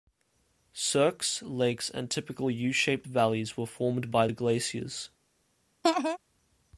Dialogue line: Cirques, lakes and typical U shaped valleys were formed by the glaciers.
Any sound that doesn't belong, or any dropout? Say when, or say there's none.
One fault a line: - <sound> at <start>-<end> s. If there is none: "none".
- laugh at 5.8-6.2 s